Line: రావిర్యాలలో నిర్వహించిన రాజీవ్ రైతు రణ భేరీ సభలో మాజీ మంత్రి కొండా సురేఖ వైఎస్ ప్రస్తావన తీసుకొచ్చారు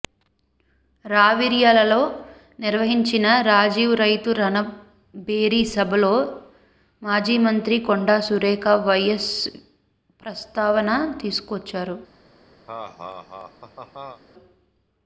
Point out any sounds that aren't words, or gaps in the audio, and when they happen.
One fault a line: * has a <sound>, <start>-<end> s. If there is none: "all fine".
* has a laugh, 12.7-14.2 s